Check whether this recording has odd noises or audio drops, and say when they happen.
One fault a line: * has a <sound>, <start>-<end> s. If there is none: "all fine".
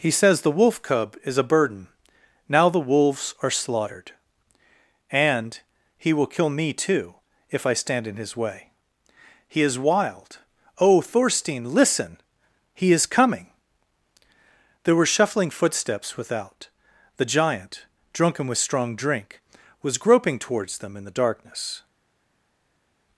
all fine